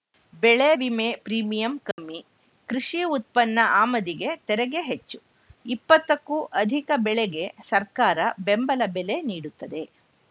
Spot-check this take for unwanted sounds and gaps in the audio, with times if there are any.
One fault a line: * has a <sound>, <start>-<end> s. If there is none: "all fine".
* has a dropout, 1.9-2.0 s